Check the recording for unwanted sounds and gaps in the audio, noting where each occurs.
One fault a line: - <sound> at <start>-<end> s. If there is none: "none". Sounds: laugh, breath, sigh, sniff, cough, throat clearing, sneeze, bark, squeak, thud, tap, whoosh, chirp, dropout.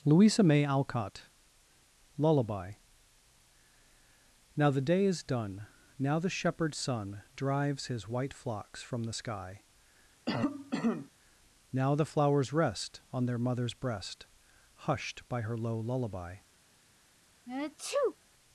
- cough at 10.3-11.1 s
- sneeze at 17.5-18.2 s